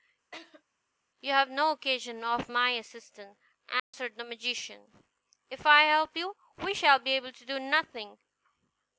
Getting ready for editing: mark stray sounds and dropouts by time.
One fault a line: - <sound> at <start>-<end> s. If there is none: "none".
- laugh at 0.3-0.6 s
- dropout at 3.8-3.9 s